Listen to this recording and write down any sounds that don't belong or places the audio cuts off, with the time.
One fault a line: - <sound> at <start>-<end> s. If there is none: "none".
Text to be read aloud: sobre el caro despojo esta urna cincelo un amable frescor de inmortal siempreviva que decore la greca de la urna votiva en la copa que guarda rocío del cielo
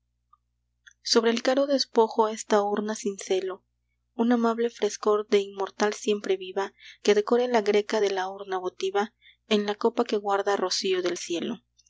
none